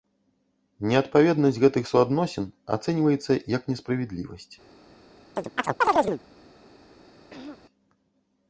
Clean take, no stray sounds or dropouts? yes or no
no